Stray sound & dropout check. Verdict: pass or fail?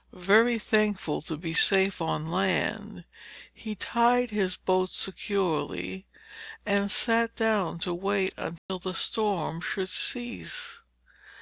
fail